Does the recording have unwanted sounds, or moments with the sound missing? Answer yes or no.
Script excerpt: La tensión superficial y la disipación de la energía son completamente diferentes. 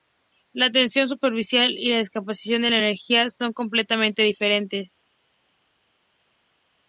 no